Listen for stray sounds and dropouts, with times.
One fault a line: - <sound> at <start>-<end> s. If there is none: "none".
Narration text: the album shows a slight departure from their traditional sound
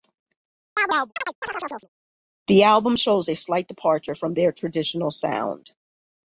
- chirp at 0.8-1.9 s